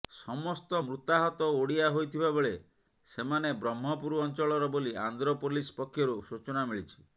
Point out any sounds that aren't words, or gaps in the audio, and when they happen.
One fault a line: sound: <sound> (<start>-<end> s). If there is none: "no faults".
no faults